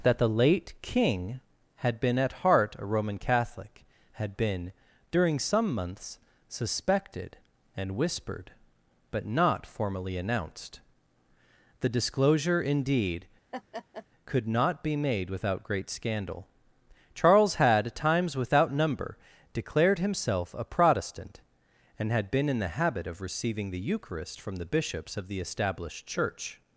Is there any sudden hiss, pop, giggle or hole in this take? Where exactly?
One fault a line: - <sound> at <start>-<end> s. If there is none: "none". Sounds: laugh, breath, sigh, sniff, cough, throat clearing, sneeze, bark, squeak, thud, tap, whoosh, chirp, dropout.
- laugh at 13.5-14.1 s